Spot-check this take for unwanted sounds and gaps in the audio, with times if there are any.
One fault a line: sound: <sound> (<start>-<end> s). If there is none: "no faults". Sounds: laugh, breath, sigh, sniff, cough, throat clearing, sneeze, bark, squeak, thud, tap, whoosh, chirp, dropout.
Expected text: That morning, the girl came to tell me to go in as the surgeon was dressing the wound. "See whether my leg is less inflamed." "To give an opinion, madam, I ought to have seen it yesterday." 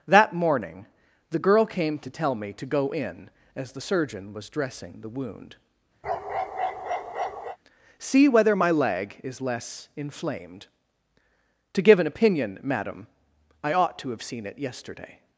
sound: bark (6.0-7.6 s)